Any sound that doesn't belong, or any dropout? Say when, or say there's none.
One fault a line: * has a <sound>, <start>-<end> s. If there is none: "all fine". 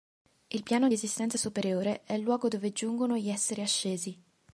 all fine